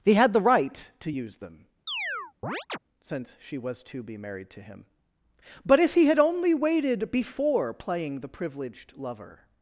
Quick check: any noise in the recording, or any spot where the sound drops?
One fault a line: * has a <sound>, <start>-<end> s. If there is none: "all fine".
* has a chirp, 1.9-2.8 s